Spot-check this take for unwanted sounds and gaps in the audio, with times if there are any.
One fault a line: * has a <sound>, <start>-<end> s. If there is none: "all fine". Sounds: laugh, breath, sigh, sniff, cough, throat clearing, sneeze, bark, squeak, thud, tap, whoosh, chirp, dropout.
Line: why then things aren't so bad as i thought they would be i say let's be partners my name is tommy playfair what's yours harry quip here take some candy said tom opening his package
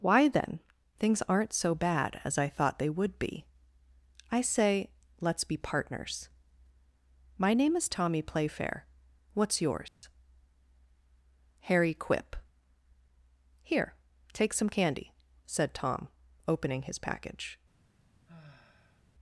* has a dropout, 9.9-10.0 s
* has a sigh, 18.3-19.0 s